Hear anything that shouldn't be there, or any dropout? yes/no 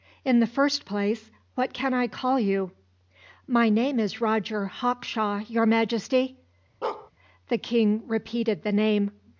yes